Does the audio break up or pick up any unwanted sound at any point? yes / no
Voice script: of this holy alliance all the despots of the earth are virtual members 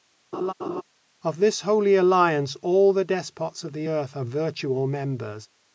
yes